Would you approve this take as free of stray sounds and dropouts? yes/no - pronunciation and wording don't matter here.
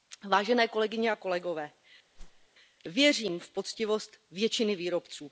no